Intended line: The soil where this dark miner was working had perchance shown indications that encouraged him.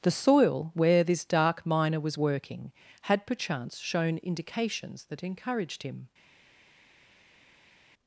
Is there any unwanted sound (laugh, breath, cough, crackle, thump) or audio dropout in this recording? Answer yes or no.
no